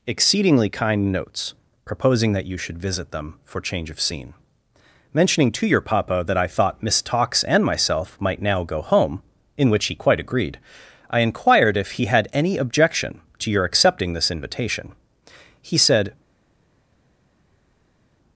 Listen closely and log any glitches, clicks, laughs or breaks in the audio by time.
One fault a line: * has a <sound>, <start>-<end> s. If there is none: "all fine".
all fine